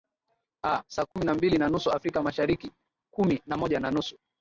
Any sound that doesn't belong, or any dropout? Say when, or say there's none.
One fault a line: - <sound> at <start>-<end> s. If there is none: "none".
- dropout at 1.1-1.2 s